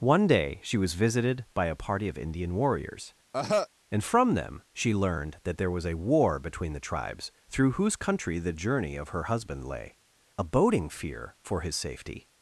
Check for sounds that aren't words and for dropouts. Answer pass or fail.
fail